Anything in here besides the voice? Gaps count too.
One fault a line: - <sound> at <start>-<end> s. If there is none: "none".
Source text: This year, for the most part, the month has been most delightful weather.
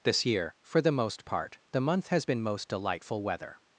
none